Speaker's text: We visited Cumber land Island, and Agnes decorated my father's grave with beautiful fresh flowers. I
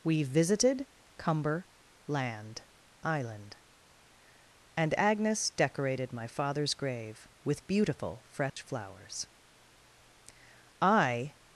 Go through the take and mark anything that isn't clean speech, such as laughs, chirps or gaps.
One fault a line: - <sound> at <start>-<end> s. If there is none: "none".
- dropout at 8.5-8.6 s